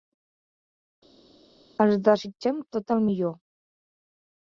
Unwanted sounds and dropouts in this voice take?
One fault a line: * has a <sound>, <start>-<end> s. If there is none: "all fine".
all fine